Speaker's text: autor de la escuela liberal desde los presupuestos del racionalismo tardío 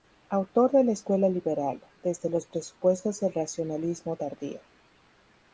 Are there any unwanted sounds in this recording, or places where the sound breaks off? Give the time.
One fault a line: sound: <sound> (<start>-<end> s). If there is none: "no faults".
no faults